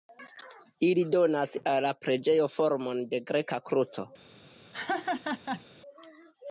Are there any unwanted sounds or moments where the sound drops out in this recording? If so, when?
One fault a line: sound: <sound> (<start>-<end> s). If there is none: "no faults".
sound: laugh (4.7-5.6 s)